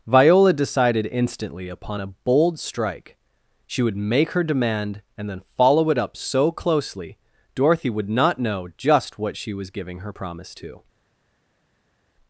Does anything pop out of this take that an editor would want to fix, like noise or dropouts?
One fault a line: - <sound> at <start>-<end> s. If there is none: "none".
none